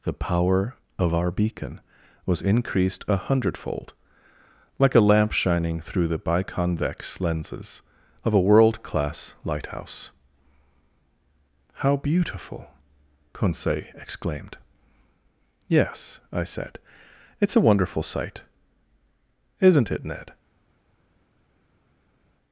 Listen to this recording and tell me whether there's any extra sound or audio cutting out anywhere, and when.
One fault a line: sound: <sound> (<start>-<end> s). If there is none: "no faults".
no faults